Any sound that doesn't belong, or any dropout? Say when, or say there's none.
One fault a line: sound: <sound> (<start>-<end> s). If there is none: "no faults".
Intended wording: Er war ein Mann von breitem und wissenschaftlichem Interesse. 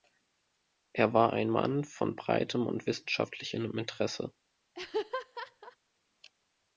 sound: laugh (4.7-5.8 s)